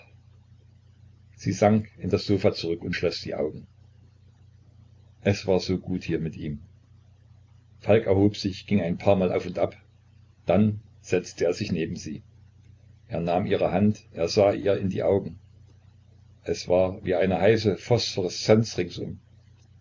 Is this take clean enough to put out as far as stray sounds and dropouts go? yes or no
yes